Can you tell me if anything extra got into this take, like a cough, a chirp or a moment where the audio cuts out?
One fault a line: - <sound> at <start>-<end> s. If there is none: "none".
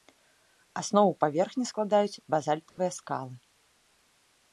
- dropout at 2.7-2.8 s